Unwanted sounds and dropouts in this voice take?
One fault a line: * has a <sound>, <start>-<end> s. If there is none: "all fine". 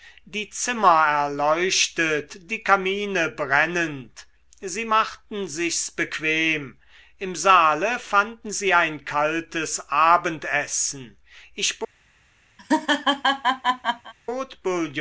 * has a laugh, 12.6-14.1 s